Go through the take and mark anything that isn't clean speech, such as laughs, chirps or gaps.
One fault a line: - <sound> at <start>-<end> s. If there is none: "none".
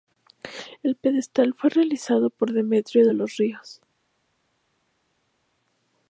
none